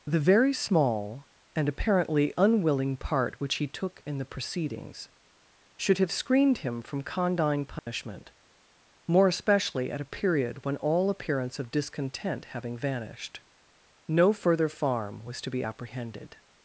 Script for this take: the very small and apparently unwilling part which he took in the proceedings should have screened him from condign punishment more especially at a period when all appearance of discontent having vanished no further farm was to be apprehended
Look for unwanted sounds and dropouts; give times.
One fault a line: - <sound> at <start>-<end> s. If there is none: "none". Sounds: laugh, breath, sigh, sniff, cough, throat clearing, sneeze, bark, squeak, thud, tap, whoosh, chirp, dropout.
- dropout at 7.8-7.9 s